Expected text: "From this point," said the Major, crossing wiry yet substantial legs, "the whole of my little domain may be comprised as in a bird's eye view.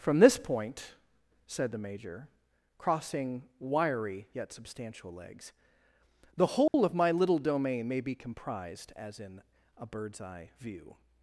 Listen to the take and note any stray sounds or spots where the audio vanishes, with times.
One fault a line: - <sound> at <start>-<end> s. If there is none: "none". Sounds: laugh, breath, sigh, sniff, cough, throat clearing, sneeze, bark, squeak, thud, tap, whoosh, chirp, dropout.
- dropout at 6.7-6.7 s